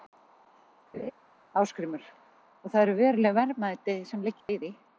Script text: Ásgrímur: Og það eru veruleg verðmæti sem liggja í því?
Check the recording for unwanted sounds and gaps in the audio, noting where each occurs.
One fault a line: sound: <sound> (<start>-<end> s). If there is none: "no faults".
sound: laugh (0.9-1.1 s)
sound: dropout (4.4-4.5 s)